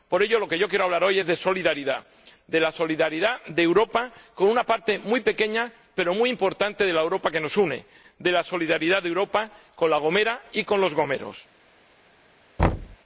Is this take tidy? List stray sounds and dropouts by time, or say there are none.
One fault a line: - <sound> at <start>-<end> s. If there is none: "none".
- thud at 12.6-13.0 s